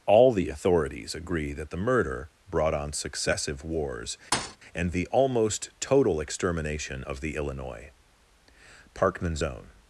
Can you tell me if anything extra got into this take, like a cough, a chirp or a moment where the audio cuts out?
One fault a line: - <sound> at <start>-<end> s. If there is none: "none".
- thud at 4.3-4.6 s